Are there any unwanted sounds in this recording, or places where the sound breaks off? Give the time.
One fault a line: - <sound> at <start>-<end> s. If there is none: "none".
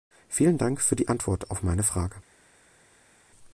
none